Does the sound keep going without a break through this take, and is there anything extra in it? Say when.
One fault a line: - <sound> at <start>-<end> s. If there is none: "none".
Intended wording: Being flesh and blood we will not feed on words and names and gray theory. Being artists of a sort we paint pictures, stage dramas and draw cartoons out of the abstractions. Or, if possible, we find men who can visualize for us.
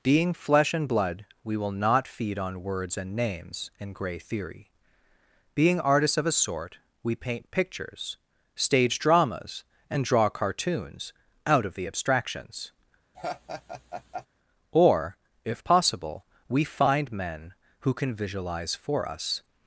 - laugh at 13.1-14.3 s